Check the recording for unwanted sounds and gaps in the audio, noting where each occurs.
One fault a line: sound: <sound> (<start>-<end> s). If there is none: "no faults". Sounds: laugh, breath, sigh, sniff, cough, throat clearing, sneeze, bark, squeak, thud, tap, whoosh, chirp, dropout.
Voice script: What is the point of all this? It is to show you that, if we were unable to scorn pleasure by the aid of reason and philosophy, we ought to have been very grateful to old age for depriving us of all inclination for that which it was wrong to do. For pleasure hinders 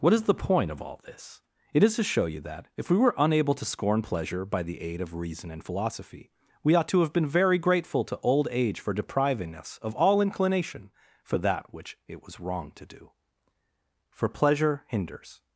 no faults